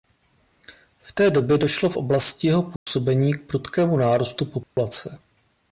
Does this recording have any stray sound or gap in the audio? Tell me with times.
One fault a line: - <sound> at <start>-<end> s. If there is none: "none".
- dropout at 2.8-2.9 s
- dropout at 4.6-4.8 s